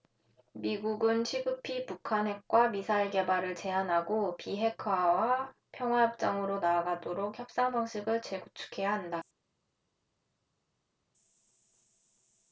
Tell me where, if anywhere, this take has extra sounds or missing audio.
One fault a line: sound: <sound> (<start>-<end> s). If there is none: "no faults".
no faults